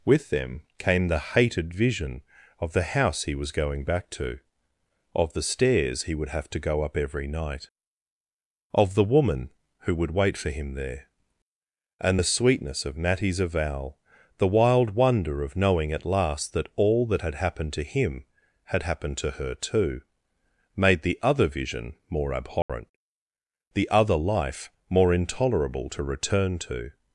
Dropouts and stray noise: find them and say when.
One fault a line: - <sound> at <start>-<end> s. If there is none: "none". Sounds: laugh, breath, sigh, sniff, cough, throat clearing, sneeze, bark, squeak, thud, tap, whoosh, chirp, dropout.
- dropout at 22.6-22.7 s